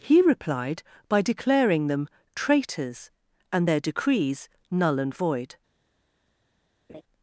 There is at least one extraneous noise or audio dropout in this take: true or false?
true